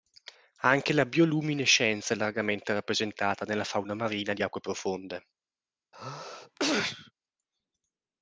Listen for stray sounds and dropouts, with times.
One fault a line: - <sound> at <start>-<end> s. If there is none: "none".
- sneeze at 5.9-7.1 s